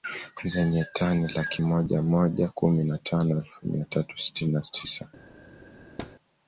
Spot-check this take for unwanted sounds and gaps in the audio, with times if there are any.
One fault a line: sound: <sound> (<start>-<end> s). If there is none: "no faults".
sound: thud (6.0-6.2 s)